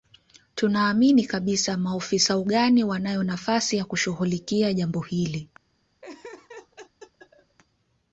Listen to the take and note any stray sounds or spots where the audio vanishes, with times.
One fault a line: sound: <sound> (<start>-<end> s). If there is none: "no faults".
sound: laugh (6.0-7.6 s)